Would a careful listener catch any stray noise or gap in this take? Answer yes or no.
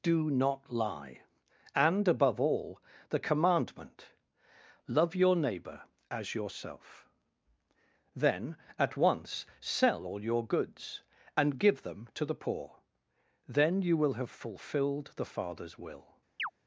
yes